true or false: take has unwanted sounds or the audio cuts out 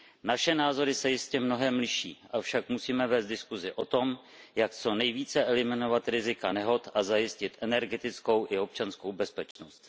true